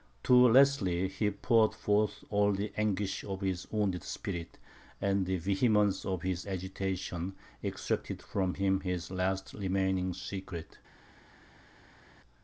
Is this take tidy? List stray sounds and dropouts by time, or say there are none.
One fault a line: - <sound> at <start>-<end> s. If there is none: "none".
none